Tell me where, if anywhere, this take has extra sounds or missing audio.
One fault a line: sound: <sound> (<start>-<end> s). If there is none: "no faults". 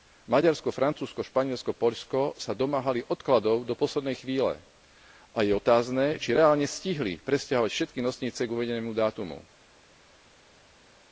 no faults